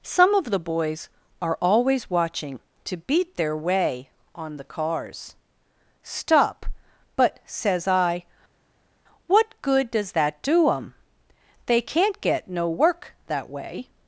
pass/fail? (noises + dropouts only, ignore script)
pass